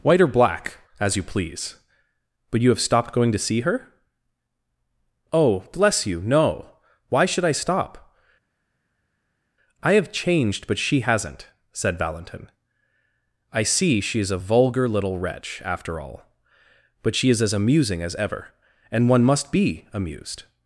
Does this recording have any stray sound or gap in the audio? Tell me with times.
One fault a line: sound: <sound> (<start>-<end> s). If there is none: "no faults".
no faults